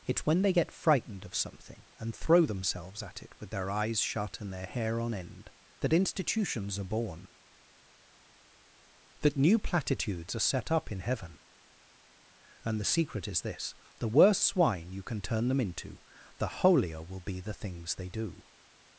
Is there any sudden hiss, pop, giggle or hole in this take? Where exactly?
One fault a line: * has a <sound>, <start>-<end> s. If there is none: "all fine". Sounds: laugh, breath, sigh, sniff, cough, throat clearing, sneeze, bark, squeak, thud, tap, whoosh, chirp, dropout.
all fine